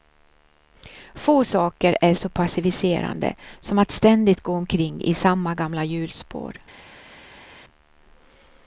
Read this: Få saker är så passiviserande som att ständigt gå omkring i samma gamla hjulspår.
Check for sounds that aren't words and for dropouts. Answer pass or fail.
pass